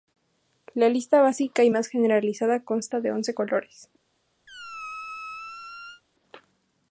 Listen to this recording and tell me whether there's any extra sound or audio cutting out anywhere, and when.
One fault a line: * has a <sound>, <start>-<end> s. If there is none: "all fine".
* has a squeak, 4.5-6.0 s